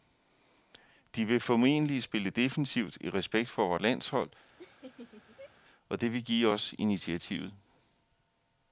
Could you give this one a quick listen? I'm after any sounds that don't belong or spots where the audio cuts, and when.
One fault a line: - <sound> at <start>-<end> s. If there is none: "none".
- laugh at 4.6-5.5 s